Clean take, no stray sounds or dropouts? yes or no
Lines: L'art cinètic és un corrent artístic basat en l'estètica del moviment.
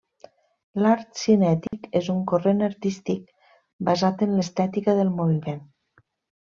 no